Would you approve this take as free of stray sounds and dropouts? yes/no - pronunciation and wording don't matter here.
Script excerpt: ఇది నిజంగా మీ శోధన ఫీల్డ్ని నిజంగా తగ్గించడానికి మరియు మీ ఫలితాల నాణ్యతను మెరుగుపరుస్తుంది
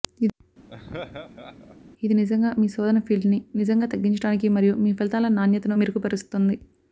no